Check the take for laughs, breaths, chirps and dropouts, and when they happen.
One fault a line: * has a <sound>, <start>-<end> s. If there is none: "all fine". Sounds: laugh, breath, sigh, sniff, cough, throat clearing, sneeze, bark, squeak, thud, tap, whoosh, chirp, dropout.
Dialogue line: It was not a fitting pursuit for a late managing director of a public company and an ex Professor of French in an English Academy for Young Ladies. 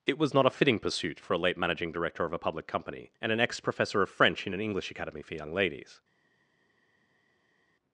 all fine